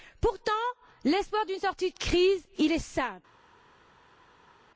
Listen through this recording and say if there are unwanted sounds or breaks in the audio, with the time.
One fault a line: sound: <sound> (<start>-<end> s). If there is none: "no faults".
no faults